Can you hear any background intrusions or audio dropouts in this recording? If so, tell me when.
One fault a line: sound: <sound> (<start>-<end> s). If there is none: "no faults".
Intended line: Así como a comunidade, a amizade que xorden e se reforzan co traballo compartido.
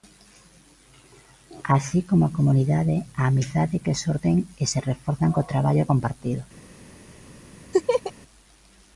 sound: laugh (7.7-8.1 s)